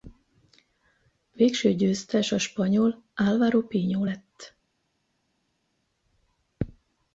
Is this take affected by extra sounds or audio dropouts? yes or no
no